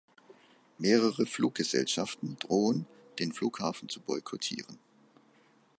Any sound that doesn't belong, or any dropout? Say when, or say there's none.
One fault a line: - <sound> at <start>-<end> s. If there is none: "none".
none